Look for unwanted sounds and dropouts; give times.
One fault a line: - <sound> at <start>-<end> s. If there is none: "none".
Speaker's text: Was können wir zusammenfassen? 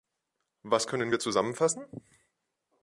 none